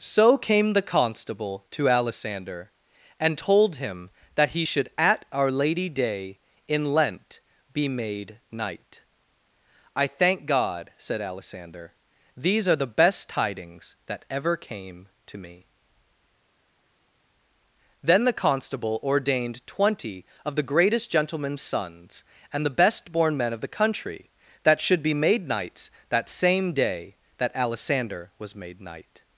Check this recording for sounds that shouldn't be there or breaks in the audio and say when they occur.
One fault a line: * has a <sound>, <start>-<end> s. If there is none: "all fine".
all fine